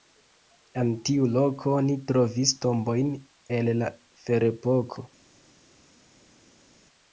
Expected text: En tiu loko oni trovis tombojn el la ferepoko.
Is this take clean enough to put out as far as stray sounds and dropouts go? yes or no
yes